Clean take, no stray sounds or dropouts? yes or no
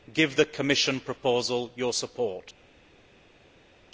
yes